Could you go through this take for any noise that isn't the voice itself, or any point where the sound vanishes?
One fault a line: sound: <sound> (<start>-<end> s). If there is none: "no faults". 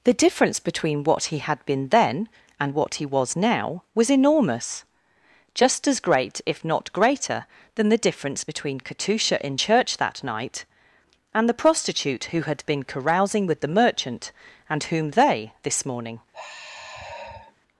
sound: sigh (16.3-17.6 s)